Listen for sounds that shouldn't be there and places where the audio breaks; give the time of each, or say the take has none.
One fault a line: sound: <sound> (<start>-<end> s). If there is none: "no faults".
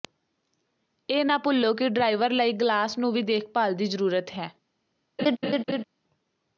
sound: laugh (5.2-5.8 s)